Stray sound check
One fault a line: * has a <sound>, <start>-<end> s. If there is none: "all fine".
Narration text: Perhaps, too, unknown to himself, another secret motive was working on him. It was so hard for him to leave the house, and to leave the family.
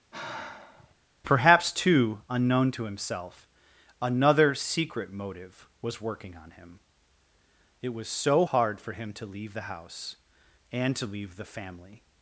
* has a sigh, 0.1-0.9 s